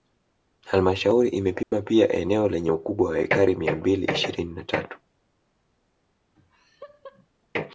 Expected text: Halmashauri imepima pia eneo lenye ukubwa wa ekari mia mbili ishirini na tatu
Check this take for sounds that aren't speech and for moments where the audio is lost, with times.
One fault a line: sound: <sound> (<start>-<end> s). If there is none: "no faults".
sound: dropout (1.6-1.7 s)
sound: laugh (6.4-7.3 s)